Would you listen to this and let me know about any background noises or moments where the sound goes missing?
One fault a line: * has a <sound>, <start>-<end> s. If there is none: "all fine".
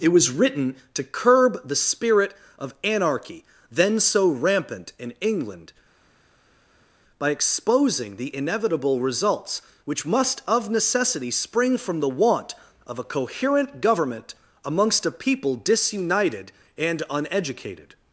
all fine